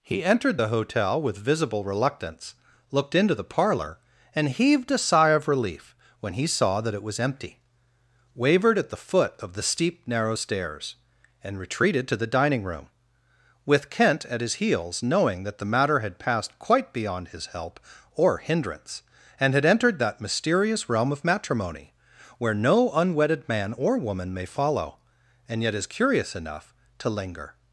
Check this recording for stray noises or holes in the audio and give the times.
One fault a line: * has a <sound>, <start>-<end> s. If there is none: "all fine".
all fine